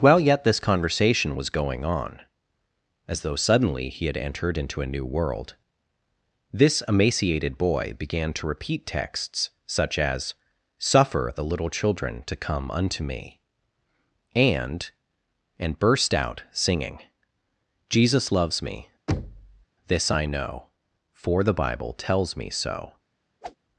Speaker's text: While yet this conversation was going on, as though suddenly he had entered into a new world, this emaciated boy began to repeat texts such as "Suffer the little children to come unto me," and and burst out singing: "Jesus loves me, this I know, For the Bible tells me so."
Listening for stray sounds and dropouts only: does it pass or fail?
fail